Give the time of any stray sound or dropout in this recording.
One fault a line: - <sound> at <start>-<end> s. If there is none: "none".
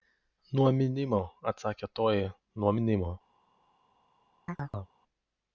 - chirp at 4.5-5.0 s